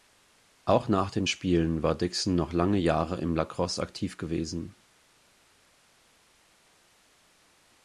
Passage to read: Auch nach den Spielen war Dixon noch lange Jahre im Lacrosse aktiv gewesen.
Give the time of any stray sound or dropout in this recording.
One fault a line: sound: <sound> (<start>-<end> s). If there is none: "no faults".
no faults